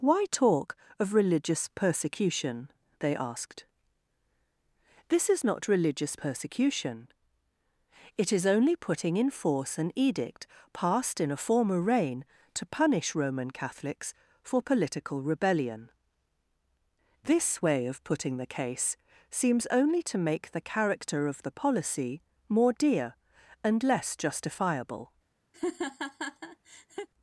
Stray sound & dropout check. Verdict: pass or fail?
fail